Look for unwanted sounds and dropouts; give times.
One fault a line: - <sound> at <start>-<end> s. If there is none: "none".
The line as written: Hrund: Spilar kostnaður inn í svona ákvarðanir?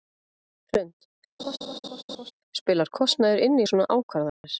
- laugh at 1.4-2.3 s
- dropout at 4.3-4.4 s